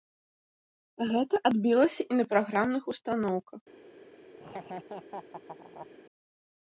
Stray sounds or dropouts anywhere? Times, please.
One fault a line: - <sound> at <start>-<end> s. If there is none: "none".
- laugh at 4.4-5.9 s